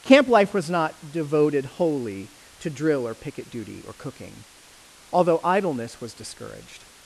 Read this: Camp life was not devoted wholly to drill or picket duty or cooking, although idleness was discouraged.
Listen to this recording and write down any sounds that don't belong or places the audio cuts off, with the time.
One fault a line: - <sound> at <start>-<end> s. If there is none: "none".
none